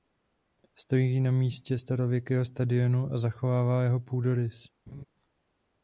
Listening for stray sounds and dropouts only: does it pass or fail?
fail